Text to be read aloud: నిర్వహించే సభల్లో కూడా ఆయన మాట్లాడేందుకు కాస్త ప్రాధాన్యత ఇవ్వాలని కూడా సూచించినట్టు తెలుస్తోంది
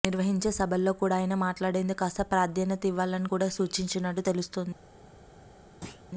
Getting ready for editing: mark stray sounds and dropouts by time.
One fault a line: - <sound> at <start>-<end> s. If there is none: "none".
- thud at 5.8-6.0 s